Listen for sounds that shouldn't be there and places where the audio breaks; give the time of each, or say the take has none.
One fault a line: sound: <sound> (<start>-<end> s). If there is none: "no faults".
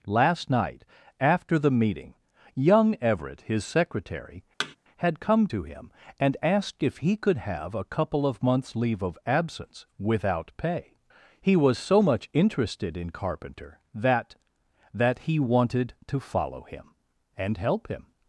sound: thud (4.6-4.8 s)